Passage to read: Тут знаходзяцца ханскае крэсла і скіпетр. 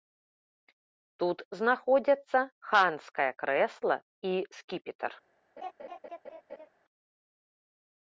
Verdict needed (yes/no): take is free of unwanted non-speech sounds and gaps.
no